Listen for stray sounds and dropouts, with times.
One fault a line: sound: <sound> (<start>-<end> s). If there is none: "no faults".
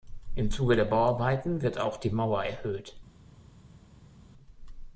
no faults